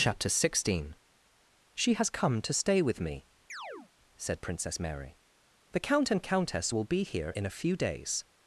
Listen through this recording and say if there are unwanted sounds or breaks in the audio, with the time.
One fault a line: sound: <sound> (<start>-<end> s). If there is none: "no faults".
sound: chirp (3.5-3.9 s)